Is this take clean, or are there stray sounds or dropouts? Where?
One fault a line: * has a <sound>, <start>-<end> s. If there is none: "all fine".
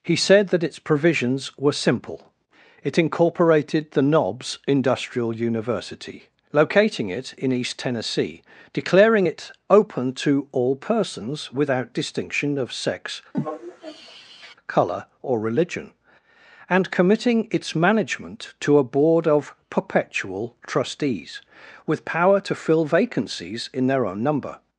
* has a sigh, 13.3-14.5 s